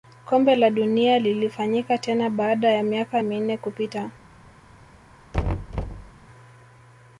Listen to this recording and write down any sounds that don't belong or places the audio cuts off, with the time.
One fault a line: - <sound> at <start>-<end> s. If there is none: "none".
- thud at 5.3-6.1 s